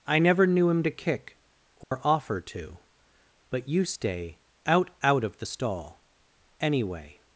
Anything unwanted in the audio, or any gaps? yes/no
yes